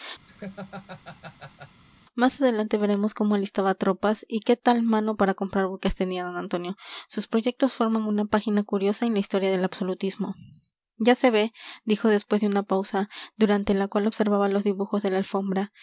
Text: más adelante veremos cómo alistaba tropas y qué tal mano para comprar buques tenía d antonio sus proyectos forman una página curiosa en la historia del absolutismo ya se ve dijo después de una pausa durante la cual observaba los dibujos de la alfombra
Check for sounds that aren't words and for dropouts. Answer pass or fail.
fail